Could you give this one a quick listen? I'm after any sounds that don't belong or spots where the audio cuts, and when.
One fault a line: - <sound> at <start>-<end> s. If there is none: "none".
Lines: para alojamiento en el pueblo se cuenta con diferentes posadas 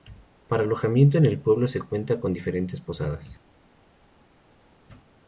none